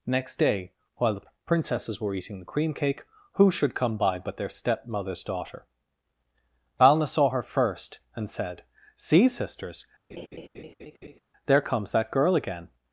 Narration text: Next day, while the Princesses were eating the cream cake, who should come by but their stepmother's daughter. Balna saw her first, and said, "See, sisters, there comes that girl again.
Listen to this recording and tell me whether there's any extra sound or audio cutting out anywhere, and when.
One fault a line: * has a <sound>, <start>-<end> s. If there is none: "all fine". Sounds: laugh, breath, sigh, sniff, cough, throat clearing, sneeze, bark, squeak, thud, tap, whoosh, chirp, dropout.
* has a laugh, 10.1-11.2 s